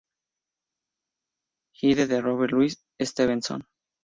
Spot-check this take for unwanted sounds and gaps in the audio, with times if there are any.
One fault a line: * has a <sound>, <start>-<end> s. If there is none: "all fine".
all fine